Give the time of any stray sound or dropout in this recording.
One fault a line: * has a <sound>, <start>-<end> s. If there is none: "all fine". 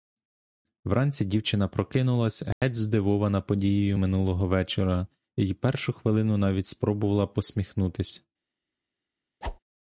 * has a dropout, 2.5-2.6 s
* has a whoosh, 9.4-9.6 s